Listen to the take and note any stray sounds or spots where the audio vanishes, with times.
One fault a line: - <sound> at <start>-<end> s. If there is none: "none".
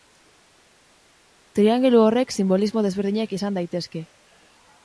none